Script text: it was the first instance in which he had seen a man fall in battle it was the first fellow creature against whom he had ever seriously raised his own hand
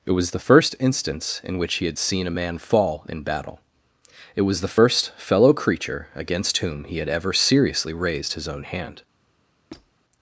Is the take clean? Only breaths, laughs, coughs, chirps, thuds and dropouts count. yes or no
no